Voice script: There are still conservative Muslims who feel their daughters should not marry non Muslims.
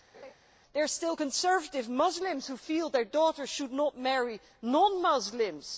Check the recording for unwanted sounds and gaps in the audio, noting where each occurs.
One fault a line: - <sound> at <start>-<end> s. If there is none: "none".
- laugh at 0.1-0.3 s